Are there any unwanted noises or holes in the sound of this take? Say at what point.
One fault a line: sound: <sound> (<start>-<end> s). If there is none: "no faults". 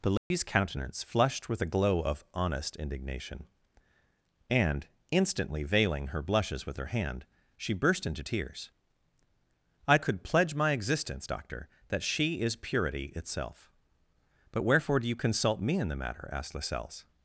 sound: dropout (0.2-0.3 s)